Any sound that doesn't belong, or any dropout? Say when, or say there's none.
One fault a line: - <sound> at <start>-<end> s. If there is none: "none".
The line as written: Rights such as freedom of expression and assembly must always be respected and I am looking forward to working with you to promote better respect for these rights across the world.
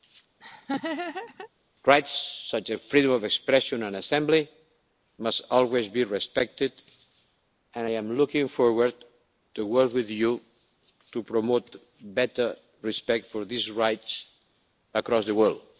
- laugh at 0.4-1.5 s